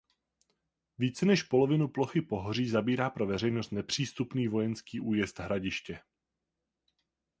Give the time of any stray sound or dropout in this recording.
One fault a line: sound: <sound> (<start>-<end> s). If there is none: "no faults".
no faults